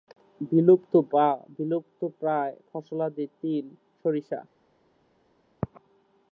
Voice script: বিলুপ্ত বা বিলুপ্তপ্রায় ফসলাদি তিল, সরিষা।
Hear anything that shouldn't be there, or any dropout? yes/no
no